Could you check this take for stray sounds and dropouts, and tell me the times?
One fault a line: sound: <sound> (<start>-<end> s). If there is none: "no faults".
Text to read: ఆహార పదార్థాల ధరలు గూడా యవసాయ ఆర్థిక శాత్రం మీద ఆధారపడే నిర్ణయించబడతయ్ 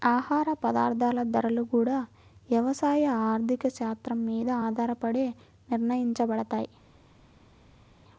no faults